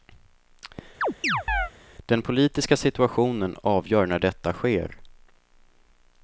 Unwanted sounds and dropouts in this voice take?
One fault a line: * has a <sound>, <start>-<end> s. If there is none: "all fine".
* has a chirp, 1.0-1.7 s